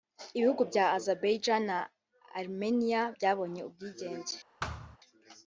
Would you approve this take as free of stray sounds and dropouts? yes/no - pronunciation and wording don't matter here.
no